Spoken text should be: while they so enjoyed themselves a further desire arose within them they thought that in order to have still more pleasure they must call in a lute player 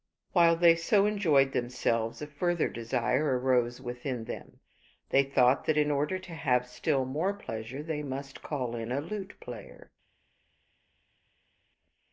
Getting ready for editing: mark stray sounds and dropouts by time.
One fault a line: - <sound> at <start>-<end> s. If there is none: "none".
none